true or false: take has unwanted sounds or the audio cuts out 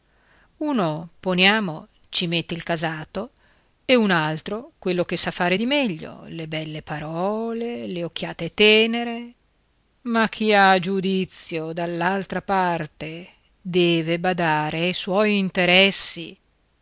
false